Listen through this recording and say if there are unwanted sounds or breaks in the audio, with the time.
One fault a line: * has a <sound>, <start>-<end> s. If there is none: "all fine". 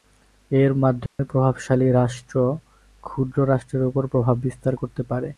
* has a dropout, 1.1-1.2 s